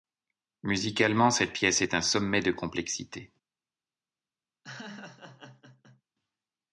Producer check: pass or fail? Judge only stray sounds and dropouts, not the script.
fail